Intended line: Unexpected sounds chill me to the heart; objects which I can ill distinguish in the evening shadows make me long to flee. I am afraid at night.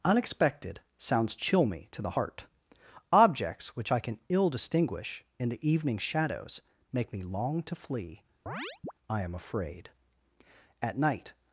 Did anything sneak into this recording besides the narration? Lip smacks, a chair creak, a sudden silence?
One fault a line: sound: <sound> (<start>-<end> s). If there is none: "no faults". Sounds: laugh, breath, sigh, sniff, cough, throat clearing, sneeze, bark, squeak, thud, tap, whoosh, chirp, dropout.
sound: chirp (8.5-8.9 s)